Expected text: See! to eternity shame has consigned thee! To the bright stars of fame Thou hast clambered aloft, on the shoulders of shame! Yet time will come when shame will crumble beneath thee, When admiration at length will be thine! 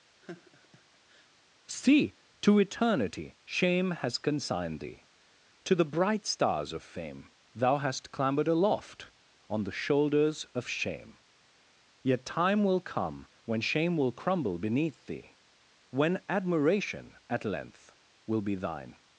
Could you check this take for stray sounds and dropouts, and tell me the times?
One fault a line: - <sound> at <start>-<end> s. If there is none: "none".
- laugh at 0.2-1.3 s